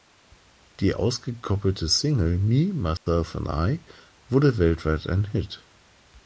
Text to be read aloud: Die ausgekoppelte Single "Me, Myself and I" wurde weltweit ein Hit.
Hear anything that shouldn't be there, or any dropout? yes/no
yes